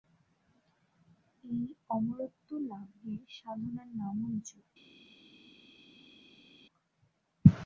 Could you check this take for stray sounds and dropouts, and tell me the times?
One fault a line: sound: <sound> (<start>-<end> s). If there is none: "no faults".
no faults